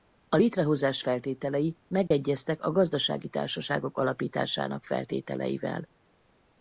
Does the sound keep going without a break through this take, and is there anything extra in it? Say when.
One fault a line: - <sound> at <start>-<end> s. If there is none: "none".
- dropout at 2.1-2.1 s